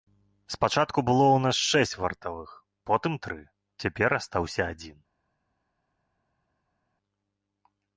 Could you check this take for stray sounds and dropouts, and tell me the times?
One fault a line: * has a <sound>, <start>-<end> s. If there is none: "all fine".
all fine